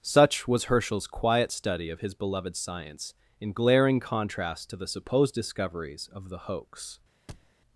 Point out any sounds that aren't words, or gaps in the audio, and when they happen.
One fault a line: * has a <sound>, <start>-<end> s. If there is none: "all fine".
* has a thud, 7.3-7.5 s